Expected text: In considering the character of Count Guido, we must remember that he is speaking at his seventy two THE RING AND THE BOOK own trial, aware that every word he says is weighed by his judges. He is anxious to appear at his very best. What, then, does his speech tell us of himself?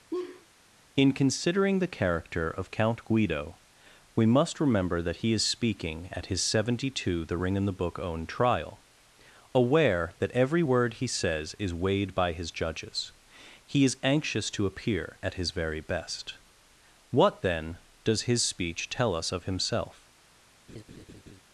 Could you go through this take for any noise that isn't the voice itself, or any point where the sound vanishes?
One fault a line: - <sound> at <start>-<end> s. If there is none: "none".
- laugh at 0.1-0.5 s
- laugh at 20.7-21.4 s